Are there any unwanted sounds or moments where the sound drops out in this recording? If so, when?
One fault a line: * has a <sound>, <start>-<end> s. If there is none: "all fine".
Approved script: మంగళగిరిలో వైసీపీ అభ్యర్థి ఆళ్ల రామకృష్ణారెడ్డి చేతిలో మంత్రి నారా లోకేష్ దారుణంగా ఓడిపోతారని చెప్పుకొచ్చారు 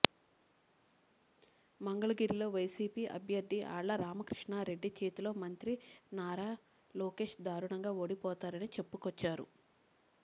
all fine